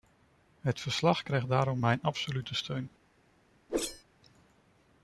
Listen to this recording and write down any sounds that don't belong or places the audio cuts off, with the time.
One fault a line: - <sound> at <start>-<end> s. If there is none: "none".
- whoosh at 3.7-4.0 s